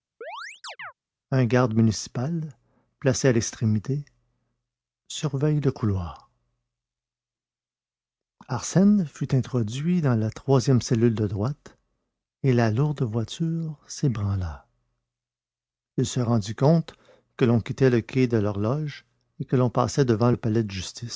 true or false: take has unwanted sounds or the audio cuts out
true